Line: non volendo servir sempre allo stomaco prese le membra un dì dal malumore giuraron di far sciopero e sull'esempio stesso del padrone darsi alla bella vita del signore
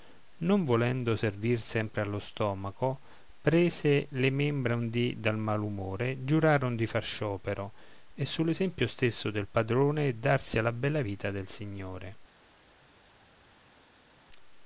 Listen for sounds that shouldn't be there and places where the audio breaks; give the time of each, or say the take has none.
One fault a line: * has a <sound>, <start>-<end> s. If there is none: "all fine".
all fine